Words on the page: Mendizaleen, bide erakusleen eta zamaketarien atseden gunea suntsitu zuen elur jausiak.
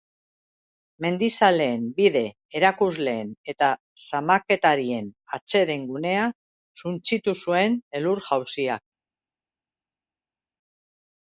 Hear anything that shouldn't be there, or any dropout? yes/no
no